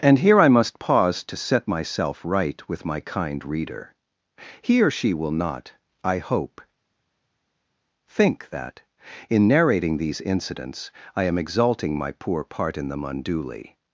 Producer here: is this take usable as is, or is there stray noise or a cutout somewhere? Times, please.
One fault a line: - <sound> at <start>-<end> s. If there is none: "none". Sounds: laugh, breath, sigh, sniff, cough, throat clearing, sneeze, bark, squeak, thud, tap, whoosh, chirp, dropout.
none